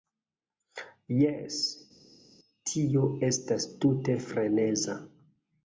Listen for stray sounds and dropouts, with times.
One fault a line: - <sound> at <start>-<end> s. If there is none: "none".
none